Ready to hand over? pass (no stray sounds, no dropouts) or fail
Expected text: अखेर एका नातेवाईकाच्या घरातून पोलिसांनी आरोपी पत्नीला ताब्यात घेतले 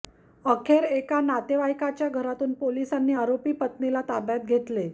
pass